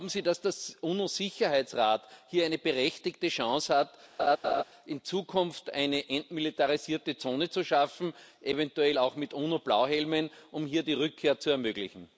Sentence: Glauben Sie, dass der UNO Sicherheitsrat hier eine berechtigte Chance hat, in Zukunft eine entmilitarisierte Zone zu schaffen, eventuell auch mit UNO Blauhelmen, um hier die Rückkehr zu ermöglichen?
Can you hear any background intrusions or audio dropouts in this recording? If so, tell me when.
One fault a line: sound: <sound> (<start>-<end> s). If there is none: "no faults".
sound: laugh (4.2-4.6 s)